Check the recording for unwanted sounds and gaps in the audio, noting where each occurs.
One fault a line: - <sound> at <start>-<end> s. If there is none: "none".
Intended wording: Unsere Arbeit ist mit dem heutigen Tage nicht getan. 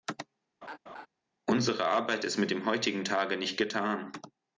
- laugh at 0.6-1.1 s